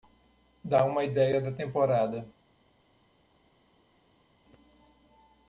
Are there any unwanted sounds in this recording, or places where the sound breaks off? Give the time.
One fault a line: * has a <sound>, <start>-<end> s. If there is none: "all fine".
all fine